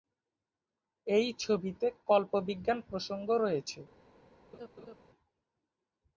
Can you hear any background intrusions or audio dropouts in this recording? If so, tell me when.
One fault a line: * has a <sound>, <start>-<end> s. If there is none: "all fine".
* has a laugh, 4.5-5.0 s